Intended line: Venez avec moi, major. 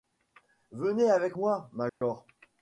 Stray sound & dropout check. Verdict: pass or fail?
fail